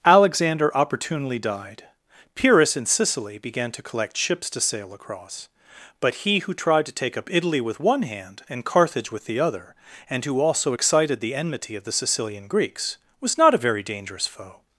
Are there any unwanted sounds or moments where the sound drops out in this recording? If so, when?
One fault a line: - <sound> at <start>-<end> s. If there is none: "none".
none